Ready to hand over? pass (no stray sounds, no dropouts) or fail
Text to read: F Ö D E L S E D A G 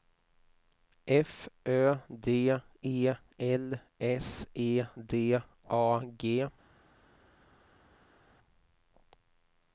pass